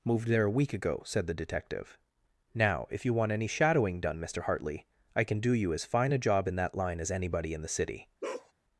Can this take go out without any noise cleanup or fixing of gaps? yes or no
no